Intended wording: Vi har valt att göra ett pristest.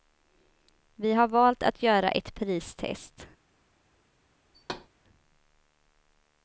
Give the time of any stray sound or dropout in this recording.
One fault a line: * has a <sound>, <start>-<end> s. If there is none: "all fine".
* has a thud, 4.5-4.9 s